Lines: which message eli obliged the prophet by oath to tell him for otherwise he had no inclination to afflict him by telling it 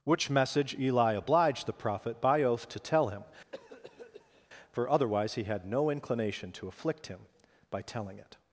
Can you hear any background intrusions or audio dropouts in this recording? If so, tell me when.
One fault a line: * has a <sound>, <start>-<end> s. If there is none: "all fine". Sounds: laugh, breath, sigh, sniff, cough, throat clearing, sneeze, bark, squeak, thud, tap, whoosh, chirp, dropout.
* has a cough, 3.5-4.5 s